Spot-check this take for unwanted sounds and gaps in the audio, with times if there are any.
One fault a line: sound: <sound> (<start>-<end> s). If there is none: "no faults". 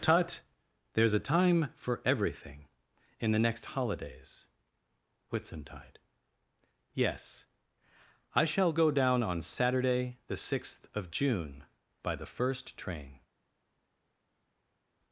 no faults